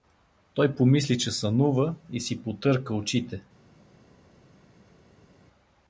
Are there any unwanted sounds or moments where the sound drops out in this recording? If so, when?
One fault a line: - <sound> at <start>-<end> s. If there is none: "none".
none